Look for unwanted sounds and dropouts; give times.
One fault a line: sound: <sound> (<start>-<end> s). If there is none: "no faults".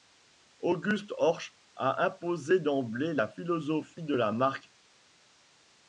no faults